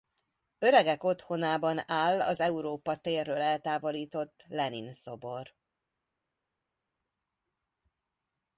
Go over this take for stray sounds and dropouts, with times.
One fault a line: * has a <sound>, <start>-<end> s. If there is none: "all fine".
all fine